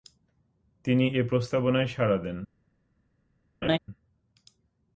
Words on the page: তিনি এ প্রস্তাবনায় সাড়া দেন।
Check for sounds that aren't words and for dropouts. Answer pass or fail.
fail